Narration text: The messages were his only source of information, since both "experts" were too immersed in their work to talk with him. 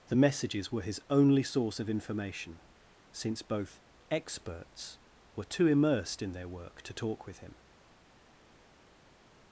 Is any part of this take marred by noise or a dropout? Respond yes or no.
no